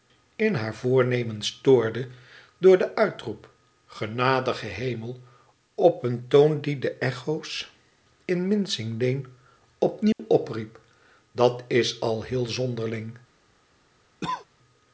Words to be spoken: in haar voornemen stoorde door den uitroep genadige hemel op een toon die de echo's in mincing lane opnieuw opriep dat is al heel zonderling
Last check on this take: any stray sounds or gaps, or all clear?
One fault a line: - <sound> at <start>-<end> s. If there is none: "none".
- dropout at 10.1-10.2 s
- cough at 14.2-14.5 s